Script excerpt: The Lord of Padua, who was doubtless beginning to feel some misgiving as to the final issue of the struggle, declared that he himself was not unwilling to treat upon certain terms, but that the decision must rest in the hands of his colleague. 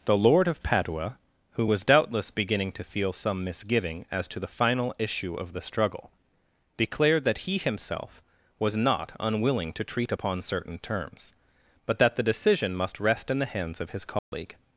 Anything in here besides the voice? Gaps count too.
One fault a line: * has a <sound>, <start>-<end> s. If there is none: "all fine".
* has a dropout, 14.2-14.3 s